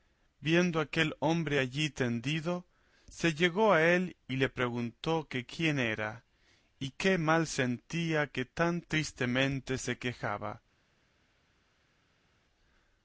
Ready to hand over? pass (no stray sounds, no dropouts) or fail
pass